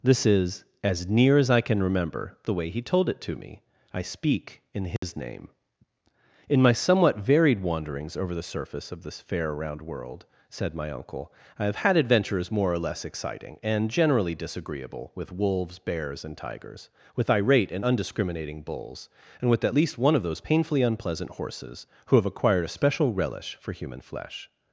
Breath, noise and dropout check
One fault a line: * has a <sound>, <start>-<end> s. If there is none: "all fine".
* has a dropout, 5.0-5.0 s